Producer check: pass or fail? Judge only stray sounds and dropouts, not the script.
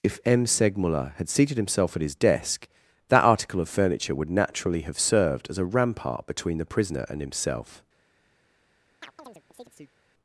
fail